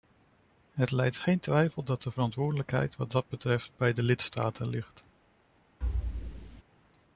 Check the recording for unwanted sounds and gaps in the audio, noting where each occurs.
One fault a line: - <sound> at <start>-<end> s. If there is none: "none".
- thud at 5.8-6.6 s